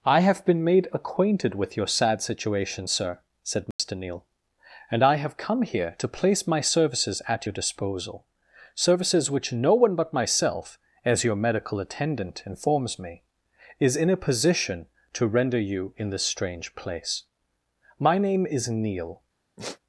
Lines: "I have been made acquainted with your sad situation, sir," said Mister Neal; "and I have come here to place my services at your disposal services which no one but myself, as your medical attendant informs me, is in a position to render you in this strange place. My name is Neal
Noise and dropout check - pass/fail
fail